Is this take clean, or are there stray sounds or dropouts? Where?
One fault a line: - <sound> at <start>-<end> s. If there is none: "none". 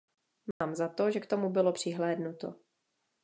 - dropout at 0.5-0.6 s